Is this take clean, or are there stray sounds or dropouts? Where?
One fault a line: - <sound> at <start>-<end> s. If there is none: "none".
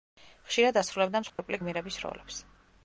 - dropout at 1.3-1.4 s